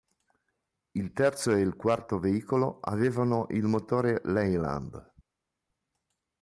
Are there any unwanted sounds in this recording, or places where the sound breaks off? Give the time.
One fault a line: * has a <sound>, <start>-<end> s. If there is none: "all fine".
all fine